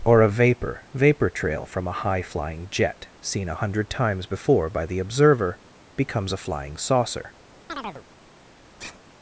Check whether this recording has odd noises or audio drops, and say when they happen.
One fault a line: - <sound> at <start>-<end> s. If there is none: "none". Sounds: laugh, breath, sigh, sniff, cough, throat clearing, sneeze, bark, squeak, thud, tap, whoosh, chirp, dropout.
- chirp at 7.7-8.0 s
- sigh at 8.8-9.0 s